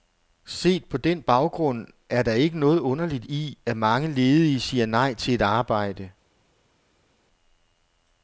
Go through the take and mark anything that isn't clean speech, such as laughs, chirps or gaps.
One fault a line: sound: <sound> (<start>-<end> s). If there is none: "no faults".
no faults